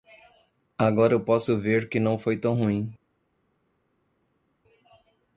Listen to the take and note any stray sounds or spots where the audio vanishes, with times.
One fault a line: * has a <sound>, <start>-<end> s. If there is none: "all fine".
all fine